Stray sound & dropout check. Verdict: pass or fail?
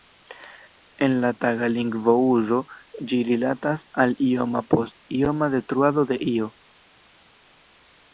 pass